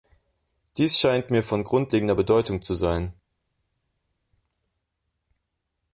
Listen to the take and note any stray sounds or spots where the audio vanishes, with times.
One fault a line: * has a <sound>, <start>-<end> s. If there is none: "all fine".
all fine